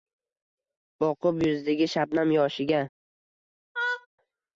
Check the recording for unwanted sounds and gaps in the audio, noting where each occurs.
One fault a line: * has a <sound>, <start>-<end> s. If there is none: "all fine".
* has a laugh, 3.7-4.1 s